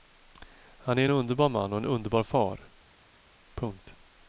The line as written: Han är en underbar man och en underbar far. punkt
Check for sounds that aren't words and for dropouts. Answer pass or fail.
pass